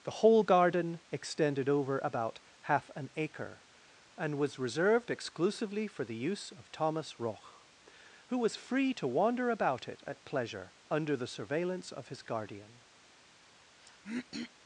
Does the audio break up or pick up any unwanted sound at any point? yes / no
yes